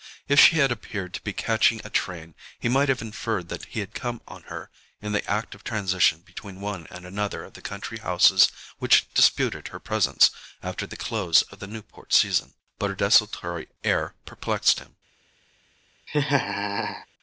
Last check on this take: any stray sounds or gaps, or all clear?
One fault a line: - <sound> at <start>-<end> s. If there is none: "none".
- laugh at 16.1-17.1 s